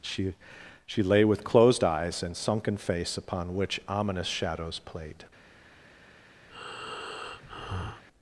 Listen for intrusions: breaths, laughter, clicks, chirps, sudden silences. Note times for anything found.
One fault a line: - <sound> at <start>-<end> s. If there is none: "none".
- breath at 6.5-8.1 s